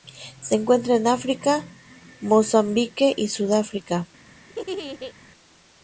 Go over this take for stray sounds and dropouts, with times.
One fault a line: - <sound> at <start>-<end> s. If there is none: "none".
- laugh at 4.5-5.1 s